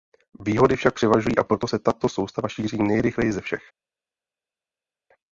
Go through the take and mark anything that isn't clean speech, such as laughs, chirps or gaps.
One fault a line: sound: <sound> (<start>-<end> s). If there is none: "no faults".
no faults